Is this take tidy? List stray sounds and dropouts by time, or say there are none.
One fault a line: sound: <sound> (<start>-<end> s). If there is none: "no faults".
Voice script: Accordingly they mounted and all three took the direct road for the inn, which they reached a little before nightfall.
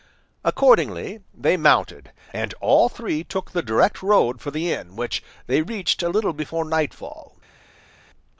no faults